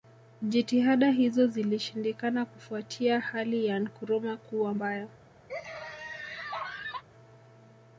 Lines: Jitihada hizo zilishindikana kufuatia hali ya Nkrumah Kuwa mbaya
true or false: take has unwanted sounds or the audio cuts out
true